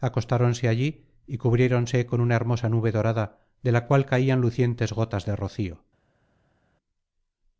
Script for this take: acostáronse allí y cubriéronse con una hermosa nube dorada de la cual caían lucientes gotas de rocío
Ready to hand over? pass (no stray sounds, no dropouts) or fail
pass